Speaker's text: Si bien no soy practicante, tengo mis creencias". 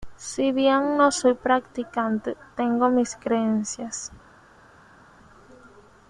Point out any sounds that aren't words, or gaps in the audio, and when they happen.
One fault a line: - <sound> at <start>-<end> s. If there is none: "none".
none